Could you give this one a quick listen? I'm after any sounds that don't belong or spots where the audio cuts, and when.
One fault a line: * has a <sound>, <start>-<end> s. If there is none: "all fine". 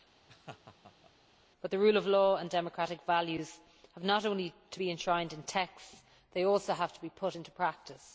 * has a laugh, 0.3-1.1 s